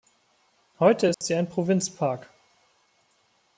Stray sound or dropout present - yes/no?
yes